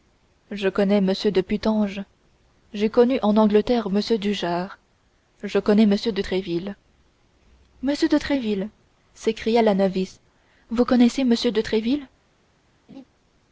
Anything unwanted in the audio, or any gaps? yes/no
yes